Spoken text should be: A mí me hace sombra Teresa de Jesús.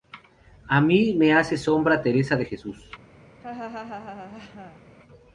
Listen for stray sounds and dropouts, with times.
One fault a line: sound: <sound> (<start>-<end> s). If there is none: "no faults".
sound: laugh (3.4-4.8 s)